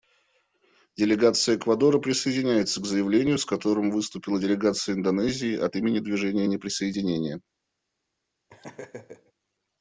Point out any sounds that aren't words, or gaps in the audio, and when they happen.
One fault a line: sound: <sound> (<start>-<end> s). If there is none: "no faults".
sound: laugh (8.5-9.3 s)